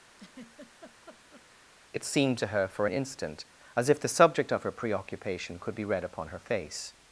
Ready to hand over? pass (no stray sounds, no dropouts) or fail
fail